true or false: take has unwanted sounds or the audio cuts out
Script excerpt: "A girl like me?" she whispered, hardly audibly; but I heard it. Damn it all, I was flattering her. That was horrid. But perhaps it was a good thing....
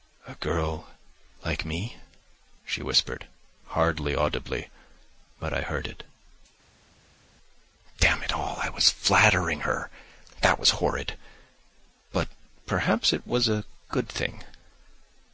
false